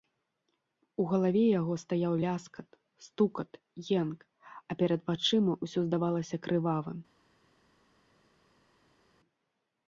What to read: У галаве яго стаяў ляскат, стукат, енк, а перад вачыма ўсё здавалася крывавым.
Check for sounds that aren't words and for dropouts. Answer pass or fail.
pass